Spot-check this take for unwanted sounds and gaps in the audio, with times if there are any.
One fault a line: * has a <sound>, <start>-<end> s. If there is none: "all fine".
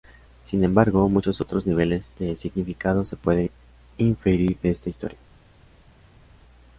all fine